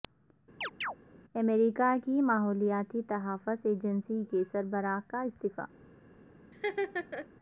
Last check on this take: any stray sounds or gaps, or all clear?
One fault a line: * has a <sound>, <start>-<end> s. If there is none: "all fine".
* has a chirp, 0.6-1.0 s
* has a laugh, 6.5-7.3 s